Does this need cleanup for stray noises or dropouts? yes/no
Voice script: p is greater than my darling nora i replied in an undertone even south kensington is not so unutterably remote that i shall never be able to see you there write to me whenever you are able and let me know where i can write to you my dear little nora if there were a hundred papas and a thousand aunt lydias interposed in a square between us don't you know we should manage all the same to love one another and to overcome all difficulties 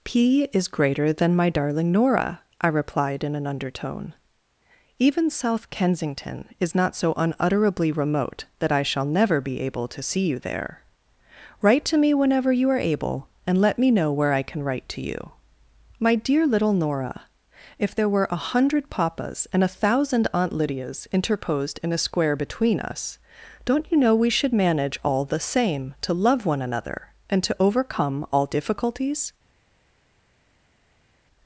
no